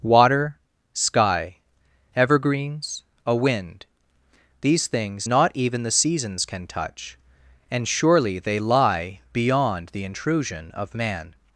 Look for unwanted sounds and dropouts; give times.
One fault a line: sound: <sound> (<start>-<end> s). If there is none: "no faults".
no faults